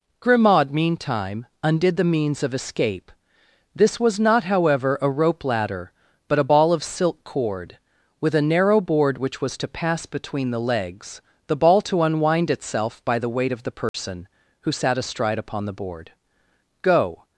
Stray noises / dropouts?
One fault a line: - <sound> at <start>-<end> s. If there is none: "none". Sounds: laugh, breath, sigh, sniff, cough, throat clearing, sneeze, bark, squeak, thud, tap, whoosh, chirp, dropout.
- dropout at 13.9-13.9 s